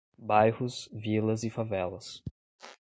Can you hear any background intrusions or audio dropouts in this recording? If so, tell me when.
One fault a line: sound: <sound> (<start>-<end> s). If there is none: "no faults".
sound: squeak (2.6-2.8 s)